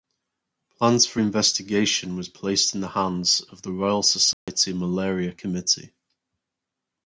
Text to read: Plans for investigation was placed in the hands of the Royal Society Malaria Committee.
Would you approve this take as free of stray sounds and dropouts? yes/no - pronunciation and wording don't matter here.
no